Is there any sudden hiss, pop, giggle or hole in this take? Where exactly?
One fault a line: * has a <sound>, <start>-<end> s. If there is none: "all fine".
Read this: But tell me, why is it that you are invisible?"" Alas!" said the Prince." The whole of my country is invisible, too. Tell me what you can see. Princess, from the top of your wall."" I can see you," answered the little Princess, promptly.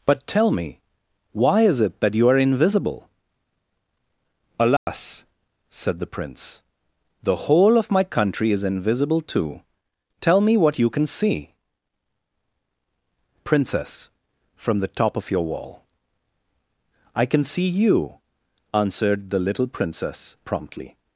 * has a dropout, 4.8-4.9 s